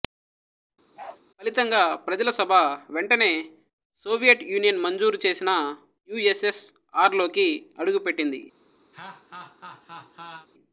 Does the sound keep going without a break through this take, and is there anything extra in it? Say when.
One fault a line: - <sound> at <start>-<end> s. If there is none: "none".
- bark at 1.0-1.2 s
- laugh at 8.9-10.5 s